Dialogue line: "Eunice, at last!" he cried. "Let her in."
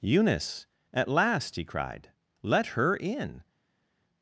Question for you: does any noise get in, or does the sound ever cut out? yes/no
no